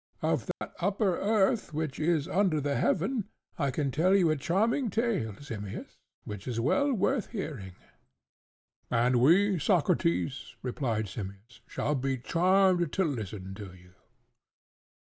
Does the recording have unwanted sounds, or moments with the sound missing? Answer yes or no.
yes